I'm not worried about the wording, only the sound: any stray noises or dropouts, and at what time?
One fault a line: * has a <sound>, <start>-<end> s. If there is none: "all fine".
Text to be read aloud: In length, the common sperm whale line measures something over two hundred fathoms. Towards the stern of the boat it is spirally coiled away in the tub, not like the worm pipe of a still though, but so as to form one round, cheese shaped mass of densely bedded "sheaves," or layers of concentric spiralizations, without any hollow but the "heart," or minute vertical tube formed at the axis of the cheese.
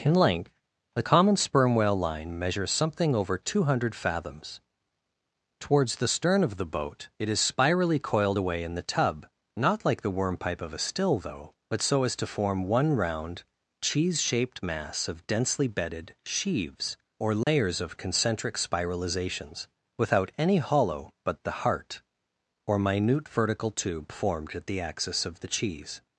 * has a dropout, 17.4-17.5 s